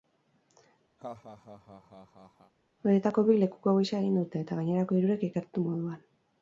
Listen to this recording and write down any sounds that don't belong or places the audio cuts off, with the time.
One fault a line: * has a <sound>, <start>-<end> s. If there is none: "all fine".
* has a laugh, 1.0-2.5 s